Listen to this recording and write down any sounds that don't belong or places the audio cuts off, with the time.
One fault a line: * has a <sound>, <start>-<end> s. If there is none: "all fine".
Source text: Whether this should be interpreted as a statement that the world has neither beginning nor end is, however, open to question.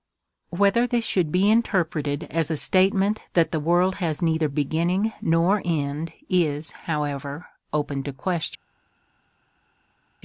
all fine